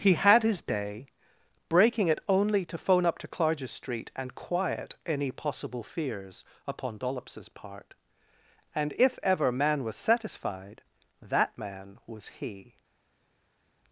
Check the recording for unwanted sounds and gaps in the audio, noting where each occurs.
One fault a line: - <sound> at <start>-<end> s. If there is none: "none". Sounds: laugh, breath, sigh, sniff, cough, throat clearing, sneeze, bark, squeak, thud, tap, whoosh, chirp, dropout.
none